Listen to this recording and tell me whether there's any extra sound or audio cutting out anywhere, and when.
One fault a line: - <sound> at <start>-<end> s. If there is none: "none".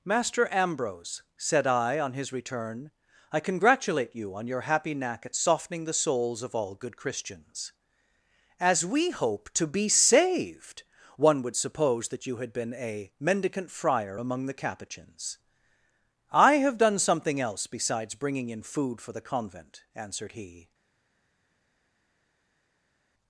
none